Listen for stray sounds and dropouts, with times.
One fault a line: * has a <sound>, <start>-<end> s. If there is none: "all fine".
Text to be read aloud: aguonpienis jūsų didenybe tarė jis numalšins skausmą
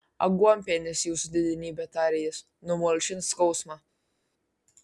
all fine